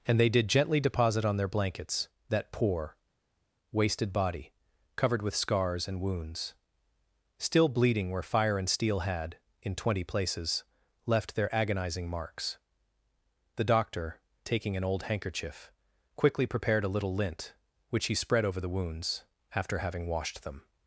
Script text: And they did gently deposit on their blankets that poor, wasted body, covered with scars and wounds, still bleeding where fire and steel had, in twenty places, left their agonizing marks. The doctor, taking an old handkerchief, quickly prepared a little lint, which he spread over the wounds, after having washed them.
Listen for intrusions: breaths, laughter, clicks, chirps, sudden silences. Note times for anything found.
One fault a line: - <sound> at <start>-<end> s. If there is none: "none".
none